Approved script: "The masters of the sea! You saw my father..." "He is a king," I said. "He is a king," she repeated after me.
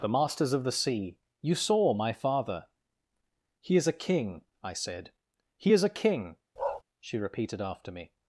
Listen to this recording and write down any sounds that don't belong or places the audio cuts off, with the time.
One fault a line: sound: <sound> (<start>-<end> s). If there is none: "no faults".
sound: bark (6.6-6.8 s)